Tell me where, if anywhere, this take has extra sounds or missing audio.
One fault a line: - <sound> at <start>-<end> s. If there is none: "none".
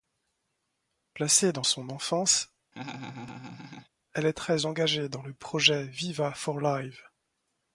- laugh at 2.7-3.9 s